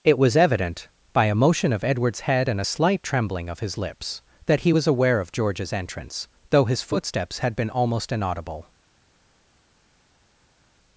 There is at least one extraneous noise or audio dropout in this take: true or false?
false